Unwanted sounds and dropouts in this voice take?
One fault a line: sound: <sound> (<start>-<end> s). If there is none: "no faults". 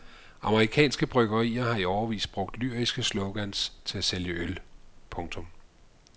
no faults